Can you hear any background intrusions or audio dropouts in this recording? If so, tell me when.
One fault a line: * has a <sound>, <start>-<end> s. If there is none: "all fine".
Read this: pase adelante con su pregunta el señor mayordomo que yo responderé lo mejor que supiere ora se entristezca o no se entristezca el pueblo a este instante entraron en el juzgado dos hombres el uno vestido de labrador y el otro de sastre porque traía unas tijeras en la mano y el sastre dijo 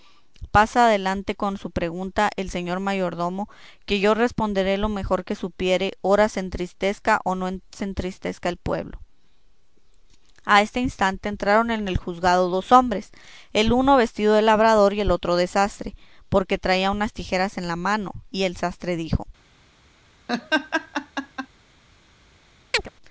* has a laugh, 20.3-21.5 s
* has a chirp, 22.7-22.9 s